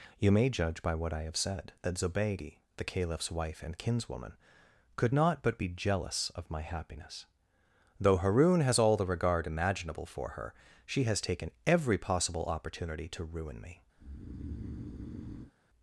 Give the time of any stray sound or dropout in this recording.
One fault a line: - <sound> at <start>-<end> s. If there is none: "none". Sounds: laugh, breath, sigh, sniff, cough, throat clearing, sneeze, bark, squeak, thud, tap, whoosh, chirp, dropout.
- breath at 14.0-15.5 s